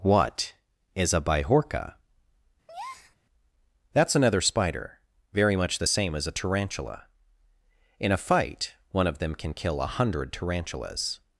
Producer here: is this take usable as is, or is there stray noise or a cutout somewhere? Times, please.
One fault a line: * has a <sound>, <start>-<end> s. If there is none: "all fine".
* has a breath, 2.7-3.2 s